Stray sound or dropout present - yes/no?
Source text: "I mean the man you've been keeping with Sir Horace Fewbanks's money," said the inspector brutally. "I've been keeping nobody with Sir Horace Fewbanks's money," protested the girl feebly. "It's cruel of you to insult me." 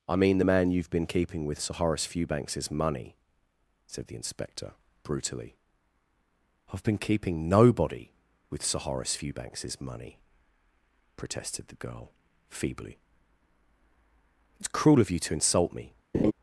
yes